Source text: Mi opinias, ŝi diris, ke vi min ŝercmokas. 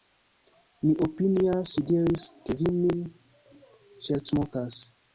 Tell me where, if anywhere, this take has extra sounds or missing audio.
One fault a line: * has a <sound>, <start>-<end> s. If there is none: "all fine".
all fine